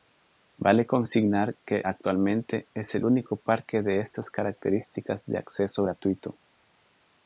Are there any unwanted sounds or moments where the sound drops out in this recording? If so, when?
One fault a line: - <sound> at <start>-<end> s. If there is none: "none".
none